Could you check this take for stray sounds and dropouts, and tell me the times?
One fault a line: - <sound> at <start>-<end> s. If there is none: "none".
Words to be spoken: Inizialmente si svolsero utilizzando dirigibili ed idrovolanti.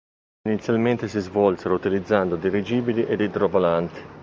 none